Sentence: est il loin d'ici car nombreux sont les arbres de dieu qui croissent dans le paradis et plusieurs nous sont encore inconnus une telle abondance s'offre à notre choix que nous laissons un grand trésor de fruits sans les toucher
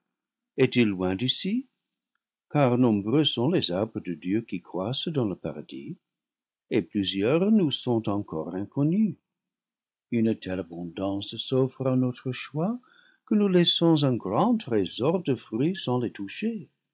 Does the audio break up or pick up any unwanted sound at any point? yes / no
no